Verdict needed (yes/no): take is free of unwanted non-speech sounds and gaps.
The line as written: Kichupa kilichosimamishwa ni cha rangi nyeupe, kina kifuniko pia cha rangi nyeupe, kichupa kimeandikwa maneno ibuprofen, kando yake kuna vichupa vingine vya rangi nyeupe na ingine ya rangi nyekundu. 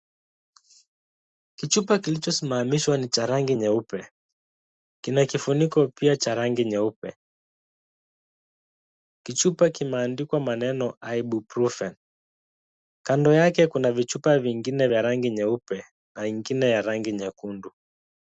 yes